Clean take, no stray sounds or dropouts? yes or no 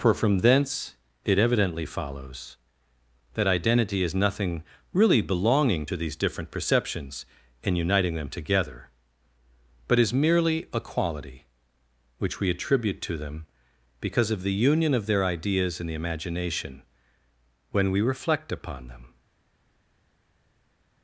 yes